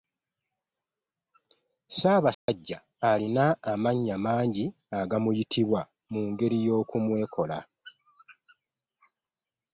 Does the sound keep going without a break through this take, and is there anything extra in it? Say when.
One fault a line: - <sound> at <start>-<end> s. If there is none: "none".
- dropout at 2.3-2.5 s